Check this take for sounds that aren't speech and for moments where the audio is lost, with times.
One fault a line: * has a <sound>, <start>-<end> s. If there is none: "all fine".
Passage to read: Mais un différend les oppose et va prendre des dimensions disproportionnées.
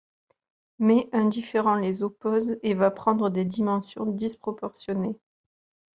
all fine